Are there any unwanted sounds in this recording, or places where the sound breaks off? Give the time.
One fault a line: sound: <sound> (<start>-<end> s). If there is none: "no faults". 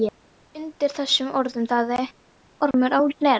sound: dropout (2.7-2.7 s)